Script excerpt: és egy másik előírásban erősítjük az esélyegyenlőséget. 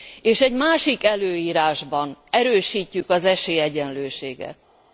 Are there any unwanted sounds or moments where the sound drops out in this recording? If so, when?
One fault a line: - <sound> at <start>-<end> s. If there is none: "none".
none